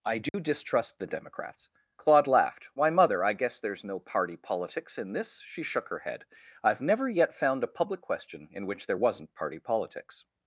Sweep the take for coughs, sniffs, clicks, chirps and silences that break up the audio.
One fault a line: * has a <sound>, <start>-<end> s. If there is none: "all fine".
* has a dropout, 0.3-0.3 s